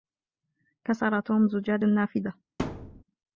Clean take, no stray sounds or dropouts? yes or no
no